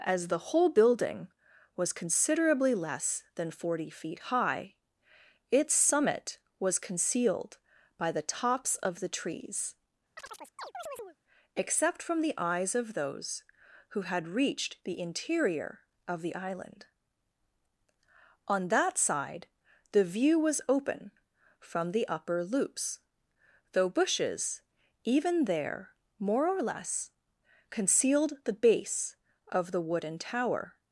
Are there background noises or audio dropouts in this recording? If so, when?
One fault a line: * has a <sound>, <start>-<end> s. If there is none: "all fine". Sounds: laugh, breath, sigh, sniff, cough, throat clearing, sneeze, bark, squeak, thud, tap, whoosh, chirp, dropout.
* has a chirp, 10.2-11.2 s